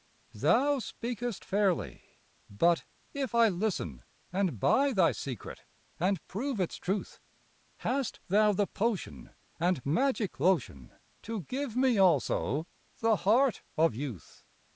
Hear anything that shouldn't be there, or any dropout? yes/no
no